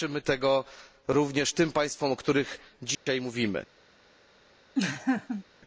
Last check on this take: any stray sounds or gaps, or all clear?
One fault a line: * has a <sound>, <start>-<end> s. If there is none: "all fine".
* has a dropout, 2.9-3.1 s
* has a laugh, 4.7-5.4 s